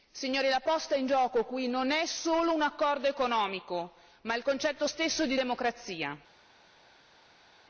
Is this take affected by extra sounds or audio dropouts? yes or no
no